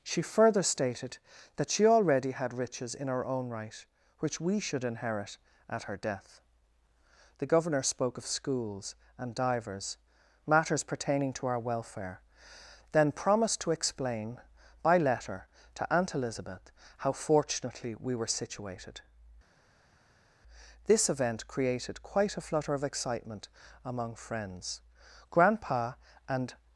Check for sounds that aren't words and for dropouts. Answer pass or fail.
pass